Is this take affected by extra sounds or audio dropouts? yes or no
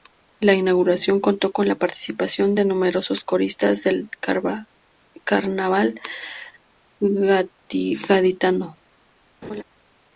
yes